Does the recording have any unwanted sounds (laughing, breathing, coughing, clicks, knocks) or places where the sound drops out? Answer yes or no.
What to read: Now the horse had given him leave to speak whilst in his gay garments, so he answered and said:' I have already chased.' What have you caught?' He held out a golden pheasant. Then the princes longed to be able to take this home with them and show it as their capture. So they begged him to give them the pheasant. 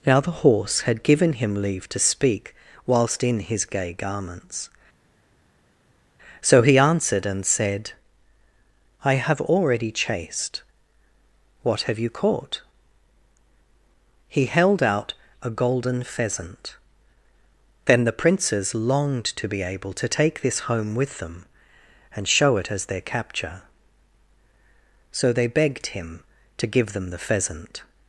no